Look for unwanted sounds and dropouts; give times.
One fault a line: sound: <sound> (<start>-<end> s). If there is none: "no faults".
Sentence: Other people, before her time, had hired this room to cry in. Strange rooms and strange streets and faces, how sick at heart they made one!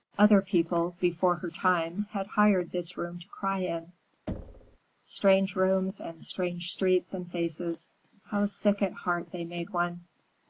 sound: thud (4.3-4.8 s)